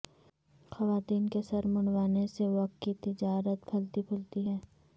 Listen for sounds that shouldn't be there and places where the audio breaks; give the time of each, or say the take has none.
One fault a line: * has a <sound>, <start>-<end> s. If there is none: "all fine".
all fine